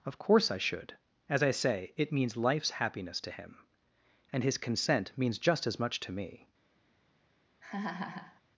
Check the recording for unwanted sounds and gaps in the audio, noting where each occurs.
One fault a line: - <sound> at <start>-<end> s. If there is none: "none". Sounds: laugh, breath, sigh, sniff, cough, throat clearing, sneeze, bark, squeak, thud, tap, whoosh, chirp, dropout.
- laugh at 7.6-8.4 s